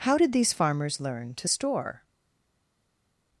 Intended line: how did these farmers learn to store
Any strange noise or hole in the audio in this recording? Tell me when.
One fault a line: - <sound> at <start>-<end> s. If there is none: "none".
none